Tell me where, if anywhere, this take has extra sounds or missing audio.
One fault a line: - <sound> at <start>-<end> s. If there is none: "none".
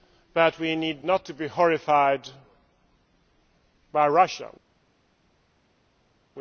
none